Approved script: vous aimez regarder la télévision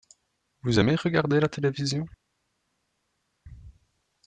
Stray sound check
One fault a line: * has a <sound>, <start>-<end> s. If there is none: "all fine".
all fine